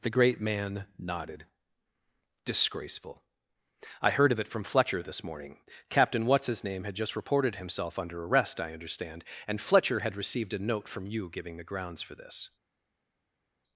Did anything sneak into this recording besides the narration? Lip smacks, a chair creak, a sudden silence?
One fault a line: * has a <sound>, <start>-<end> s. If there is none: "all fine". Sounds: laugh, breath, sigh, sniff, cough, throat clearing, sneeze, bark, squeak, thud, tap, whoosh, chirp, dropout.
all fine